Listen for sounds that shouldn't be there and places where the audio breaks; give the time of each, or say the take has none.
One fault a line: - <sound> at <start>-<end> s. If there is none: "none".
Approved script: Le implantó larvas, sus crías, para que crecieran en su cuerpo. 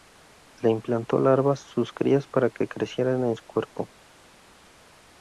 none